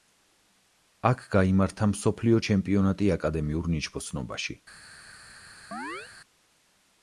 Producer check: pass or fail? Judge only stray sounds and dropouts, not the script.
fail